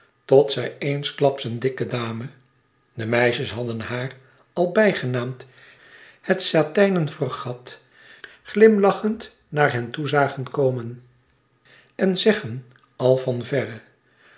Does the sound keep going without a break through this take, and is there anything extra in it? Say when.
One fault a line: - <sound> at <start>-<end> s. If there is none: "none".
none